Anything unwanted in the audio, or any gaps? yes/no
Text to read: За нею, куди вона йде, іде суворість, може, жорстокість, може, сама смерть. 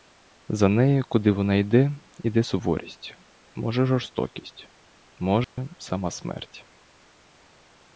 yes